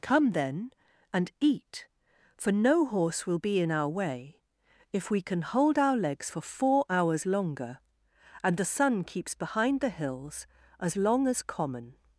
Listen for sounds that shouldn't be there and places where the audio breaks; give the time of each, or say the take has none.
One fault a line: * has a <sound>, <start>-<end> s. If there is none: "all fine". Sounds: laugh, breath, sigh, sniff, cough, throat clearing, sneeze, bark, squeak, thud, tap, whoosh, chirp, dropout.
all fine